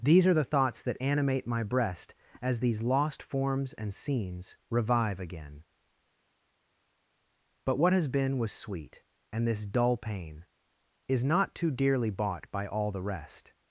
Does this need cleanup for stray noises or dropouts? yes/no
no